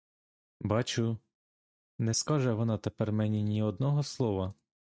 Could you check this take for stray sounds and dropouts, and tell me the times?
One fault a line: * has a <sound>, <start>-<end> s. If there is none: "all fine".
all fine